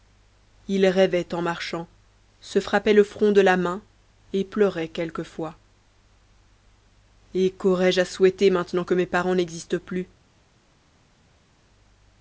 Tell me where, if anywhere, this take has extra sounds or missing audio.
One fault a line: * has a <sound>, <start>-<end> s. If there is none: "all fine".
all fine